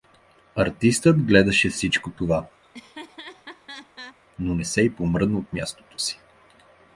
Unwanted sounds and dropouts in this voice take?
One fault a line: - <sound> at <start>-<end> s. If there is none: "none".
- laugh at 2.6-4.2 s